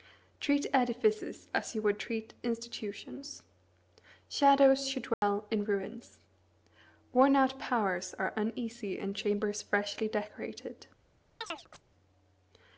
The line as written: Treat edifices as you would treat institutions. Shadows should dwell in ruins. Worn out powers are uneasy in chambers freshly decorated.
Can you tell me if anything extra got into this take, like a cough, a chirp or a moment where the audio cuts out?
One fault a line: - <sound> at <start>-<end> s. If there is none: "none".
- dropout at 5.1-5.2 s
- chirp at 11.4-11.8 s